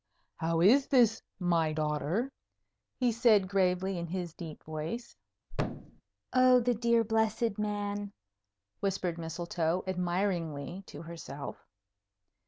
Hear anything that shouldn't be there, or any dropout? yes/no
yes